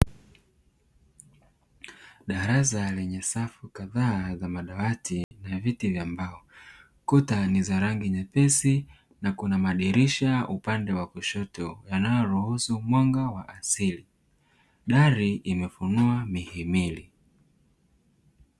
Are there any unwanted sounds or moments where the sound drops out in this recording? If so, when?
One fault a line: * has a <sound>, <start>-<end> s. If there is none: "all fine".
* has a dropout, 5.2-5.3 s